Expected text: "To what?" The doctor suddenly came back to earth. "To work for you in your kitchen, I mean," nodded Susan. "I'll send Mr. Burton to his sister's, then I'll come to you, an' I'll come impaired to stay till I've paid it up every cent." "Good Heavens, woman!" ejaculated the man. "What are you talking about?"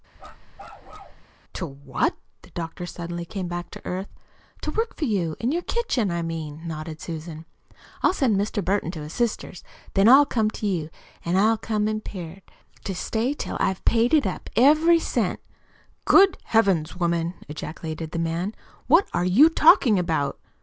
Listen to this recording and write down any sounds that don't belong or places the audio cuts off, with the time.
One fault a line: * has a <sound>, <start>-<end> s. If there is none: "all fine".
* has a bark, 0.2-1.2 s